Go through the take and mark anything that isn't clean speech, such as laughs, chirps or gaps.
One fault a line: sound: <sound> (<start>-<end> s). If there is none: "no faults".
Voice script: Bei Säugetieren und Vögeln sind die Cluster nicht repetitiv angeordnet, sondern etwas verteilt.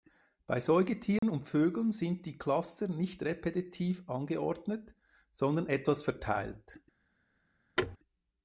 sound: dropout (1.2-1.2 s)
sound: thud (7.8-8.0 s)